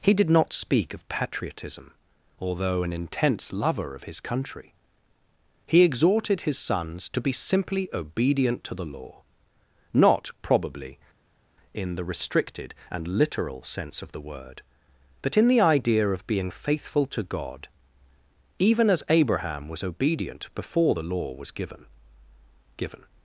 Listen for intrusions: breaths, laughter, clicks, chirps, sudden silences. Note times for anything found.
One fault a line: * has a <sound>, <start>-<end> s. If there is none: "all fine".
all fine